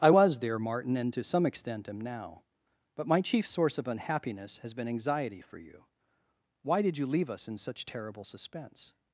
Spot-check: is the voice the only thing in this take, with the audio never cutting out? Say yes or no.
yes